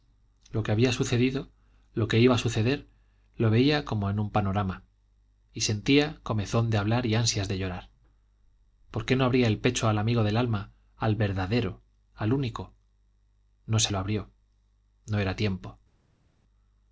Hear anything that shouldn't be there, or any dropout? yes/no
no